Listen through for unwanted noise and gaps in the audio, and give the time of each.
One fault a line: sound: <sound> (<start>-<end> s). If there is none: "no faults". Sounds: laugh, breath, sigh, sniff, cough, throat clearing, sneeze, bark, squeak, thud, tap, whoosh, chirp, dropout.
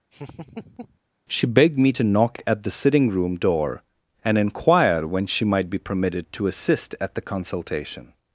sound: laugh (0.1-1.0 s)